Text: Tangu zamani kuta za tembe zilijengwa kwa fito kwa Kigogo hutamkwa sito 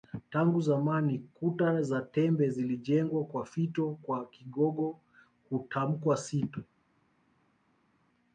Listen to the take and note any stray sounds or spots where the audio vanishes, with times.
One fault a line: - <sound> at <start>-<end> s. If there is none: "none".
none